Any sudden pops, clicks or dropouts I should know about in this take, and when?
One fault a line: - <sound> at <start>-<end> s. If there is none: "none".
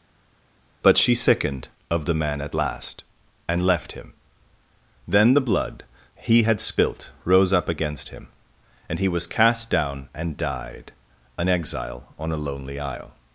none